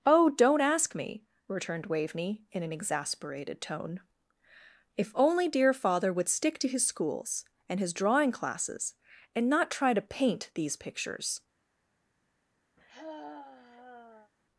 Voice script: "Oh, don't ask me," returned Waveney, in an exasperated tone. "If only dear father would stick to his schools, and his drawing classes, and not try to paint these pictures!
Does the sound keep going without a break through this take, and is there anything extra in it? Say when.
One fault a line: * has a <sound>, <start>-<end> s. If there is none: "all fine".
* has a sigh, 12.8-14.3 s